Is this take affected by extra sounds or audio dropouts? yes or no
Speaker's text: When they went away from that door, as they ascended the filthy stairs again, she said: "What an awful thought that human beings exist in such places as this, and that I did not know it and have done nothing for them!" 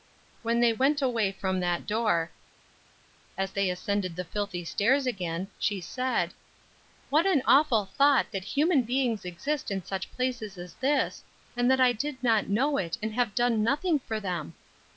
no